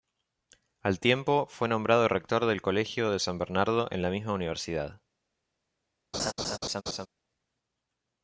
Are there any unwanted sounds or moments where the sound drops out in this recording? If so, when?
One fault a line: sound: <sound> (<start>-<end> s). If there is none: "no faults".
sound: laugh (6.1-7.1 s)